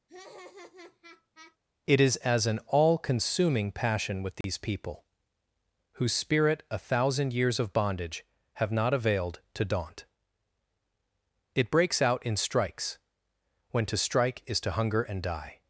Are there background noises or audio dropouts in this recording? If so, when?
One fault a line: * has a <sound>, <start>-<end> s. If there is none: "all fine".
* has a laugh, 0.1-1.6 s
* has a dropout, 4.4-4.4 s